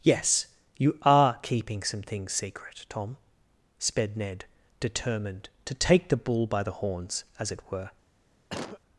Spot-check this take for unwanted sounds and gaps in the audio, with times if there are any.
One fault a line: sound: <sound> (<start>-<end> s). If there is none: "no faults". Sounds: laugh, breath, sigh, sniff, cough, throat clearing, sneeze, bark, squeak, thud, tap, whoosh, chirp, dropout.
sound: cough (8.5-8.8 s)